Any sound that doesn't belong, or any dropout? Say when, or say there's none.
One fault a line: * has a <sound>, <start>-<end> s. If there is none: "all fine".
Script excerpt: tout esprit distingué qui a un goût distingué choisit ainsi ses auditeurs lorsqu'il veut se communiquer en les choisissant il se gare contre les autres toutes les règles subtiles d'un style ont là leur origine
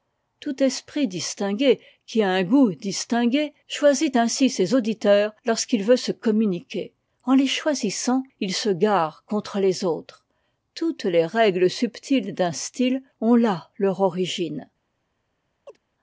* has a chirp, 15.7-15.8 s